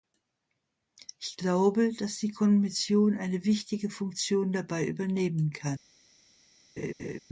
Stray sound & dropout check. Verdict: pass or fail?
fail